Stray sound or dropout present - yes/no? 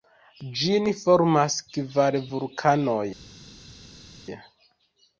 no